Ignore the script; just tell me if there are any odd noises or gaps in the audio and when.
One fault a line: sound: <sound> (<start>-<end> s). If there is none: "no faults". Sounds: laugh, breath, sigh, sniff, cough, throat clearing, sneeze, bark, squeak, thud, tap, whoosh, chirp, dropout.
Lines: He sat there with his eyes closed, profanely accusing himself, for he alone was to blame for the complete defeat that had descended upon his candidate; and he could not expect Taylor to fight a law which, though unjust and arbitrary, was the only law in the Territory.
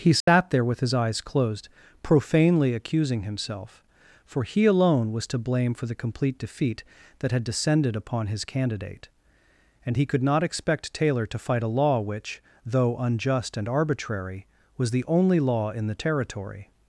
sound: dropout (0.2-0.3 s)